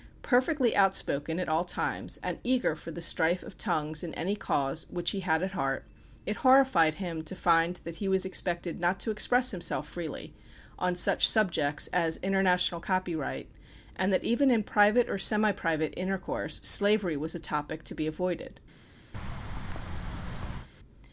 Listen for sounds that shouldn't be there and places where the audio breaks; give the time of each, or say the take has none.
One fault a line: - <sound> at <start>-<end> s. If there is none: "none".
- thud at 19.1-20.7 s